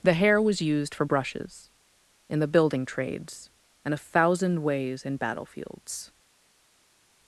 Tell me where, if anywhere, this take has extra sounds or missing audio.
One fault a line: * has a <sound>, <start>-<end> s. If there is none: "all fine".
all fine